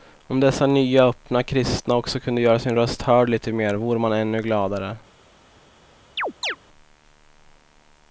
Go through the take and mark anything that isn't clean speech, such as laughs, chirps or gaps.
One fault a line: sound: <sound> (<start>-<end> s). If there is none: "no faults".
sound: chirp (6.2-6.6 s)